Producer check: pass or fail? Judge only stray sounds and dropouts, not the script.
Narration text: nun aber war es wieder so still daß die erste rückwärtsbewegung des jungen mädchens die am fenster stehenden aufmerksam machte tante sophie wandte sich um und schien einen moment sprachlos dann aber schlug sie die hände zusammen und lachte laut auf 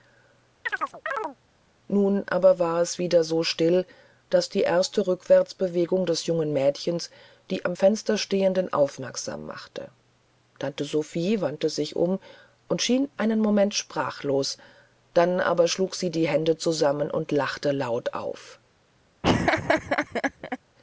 fail